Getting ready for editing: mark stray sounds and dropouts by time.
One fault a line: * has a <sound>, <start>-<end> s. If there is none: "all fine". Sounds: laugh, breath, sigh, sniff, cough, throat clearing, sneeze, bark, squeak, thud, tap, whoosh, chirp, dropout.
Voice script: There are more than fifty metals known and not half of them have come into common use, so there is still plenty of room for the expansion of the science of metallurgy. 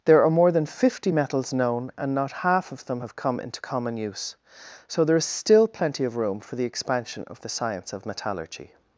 all fine